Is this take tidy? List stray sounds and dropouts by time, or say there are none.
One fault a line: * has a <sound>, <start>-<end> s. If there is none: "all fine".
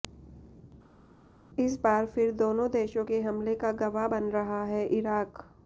all fine